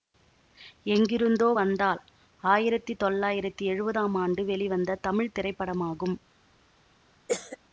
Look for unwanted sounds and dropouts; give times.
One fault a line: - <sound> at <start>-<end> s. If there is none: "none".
- cough at 7.3-7.6 s